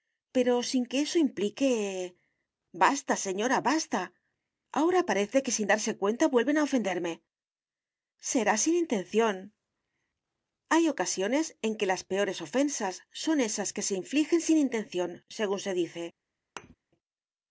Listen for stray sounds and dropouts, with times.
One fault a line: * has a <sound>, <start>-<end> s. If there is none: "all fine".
* has a thud, 16.6-16.8 s